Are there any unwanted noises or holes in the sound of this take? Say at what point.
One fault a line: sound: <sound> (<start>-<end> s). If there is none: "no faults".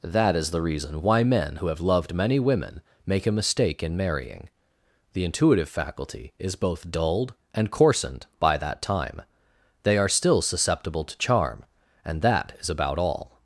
no faults